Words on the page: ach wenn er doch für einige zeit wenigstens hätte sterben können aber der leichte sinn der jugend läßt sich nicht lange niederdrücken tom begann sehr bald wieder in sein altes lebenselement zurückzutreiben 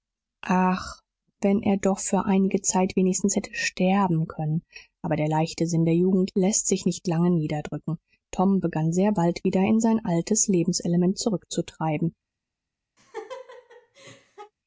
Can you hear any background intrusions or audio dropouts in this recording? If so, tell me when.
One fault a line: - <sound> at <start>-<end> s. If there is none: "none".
- laugh at 13.0-14.5 s